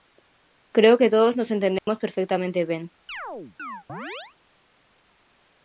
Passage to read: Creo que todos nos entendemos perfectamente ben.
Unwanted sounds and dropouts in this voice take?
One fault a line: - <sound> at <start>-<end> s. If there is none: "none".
- dropout at 1.8-1.9 s
- chirp at 3.1-4.4 s